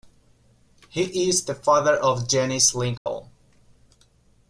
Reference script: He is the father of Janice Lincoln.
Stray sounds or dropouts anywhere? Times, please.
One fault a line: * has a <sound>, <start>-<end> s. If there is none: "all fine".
* has a dropout, 3.0-3.1 s